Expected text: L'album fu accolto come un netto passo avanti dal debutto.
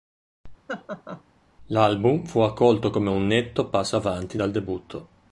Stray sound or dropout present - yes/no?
yes